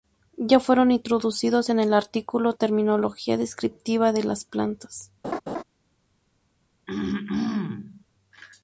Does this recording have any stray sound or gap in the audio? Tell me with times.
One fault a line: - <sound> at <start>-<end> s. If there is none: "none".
- laugh at 5.2-5.6 s
- throat clearing at 6.9-8.0 s